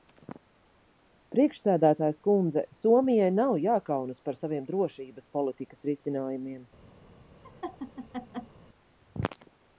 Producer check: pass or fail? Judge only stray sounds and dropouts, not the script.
fail